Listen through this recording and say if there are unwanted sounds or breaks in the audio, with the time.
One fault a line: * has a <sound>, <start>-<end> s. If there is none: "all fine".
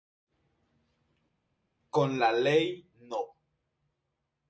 all fine